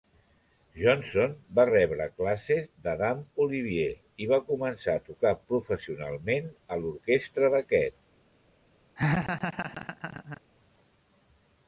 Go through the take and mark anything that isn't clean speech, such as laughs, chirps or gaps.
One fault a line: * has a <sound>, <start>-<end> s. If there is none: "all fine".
* has a laugh, 9.0-10.4 s